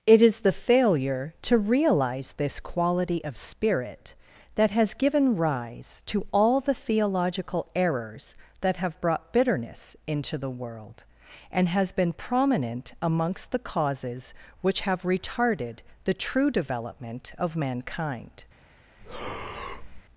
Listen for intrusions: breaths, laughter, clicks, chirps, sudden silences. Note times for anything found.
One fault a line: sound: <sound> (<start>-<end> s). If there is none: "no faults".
sound: breath (19.0-20.0 s)